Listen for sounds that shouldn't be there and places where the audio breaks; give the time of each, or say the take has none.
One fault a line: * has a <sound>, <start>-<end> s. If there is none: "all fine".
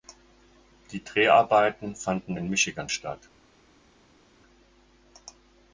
all fine